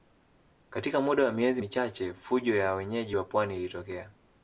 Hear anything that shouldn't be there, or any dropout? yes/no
no